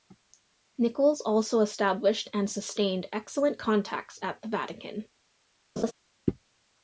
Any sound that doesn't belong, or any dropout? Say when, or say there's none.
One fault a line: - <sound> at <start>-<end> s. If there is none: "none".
- laugh at 5.8-5.9 s